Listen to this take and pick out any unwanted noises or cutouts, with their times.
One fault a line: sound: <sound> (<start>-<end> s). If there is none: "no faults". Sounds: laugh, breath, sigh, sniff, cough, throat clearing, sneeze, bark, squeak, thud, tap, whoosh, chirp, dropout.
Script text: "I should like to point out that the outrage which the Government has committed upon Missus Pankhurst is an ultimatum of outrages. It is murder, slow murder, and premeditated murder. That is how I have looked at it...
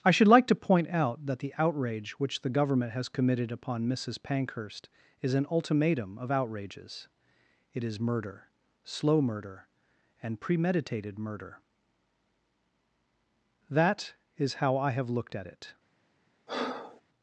sound: breath (16.5-17.0 s)